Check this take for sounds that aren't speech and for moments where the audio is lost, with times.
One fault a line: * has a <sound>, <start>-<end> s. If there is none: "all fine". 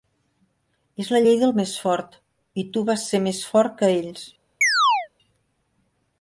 * has a chirp, 4.6-5.1 s